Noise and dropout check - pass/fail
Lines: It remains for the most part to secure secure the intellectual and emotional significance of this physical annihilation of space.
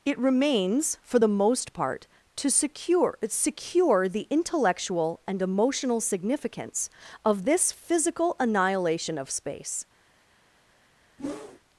fail